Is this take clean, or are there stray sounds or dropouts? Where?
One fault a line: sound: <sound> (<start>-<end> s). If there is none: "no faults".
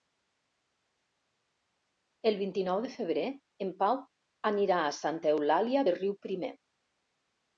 no faults